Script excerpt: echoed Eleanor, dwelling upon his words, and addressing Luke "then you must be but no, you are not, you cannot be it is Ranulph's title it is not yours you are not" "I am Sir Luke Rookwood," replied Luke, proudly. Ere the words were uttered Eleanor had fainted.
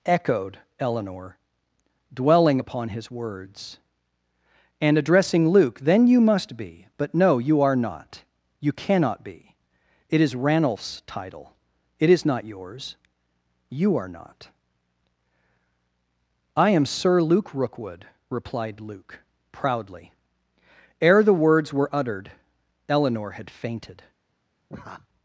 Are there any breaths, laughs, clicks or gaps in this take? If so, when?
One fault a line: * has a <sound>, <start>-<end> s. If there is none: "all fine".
* has a laugh, 24.7-25.1 s